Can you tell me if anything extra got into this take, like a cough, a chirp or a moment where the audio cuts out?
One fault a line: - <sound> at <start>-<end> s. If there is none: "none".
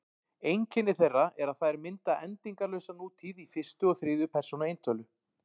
none